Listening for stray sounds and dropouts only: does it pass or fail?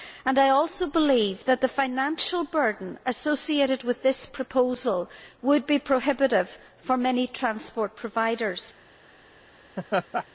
fail